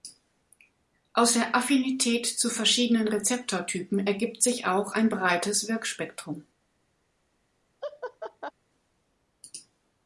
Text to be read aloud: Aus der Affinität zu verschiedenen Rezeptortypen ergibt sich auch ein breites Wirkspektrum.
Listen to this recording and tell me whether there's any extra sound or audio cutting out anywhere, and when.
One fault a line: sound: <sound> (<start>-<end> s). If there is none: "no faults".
sound: laugh (7.8-8.5 s)